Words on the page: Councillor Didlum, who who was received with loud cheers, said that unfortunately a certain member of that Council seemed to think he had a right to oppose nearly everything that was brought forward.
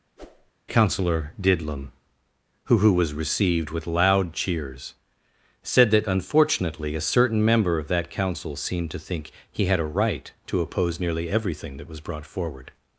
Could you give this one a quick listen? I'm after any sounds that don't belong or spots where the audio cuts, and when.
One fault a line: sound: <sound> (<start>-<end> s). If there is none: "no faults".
sound: whoosh (0.2-0.5 s)